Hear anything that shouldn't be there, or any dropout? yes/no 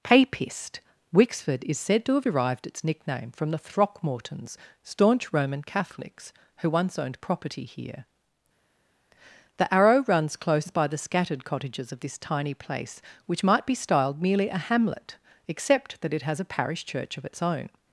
no